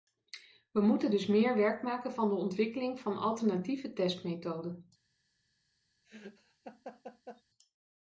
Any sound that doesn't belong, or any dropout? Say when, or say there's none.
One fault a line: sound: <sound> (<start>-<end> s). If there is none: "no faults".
sound: laugh (6.0-7.4 s)